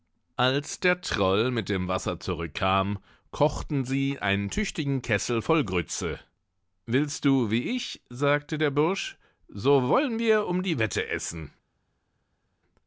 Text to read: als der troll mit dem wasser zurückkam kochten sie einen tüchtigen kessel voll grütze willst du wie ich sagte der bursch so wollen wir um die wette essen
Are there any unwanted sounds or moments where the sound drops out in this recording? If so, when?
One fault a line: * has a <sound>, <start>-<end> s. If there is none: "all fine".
all fine